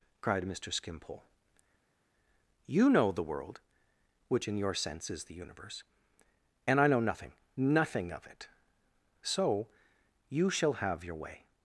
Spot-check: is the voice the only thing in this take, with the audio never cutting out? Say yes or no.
yes